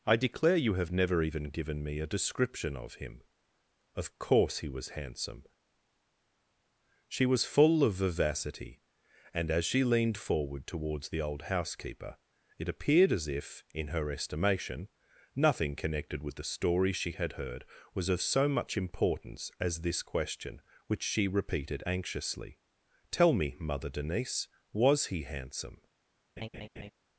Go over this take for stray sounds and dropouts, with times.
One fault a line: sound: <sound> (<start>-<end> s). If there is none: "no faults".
sound: laugh (26.4-26.9 s)